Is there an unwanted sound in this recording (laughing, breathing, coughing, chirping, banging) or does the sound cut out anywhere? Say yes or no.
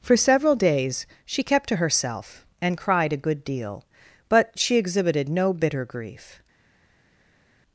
no